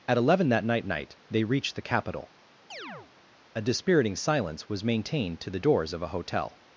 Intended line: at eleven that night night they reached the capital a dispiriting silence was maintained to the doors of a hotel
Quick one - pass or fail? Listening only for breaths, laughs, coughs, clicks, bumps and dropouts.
fail